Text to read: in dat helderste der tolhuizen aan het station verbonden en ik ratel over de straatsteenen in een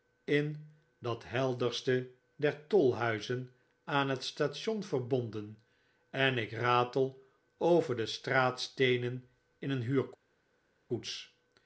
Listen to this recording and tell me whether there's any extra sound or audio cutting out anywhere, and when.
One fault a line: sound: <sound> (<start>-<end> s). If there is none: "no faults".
no faults